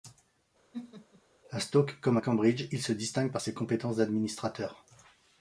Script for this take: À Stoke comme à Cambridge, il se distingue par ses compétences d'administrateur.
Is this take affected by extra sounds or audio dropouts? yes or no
yes